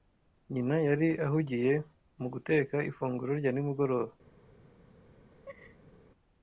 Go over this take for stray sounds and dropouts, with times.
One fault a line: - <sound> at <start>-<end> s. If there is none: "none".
- laugh at 5.3-5.9 s